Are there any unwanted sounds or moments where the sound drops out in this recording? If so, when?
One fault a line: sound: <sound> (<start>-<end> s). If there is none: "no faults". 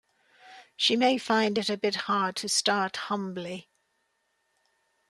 no faults